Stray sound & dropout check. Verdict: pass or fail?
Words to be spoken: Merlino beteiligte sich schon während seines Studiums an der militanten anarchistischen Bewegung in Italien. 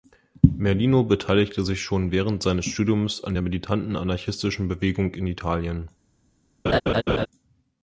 fail